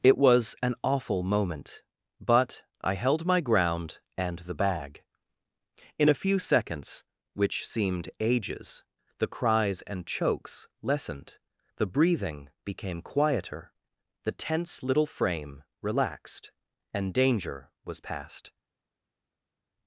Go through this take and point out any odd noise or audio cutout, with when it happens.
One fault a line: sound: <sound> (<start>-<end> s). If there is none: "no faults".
no faults